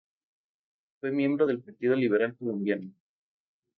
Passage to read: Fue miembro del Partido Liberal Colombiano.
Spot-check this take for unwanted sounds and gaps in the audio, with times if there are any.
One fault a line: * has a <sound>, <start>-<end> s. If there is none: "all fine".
all fine